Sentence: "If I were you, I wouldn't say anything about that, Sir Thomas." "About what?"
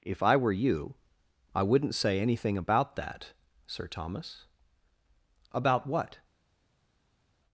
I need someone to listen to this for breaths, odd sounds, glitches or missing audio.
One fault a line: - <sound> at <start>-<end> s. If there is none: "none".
none